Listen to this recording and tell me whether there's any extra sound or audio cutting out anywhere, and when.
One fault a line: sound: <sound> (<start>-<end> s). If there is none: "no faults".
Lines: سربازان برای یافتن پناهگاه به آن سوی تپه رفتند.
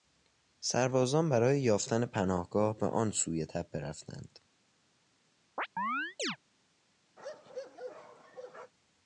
sound: chirp (5.6-6.4 s)
sound: bark (7.2-8.7 s)